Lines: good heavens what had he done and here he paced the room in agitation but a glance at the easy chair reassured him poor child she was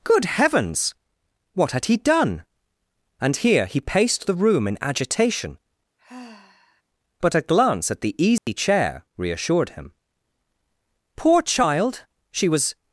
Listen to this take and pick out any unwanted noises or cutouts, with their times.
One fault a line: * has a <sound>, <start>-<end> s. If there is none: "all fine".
* has a sigh, 6.0-6.8 s
* has a dropout, 8.4-8.5 s